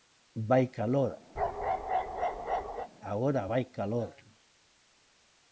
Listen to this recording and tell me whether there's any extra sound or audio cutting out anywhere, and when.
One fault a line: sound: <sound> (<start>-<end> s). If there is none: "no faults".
sound: bark (1.4-2.9 s)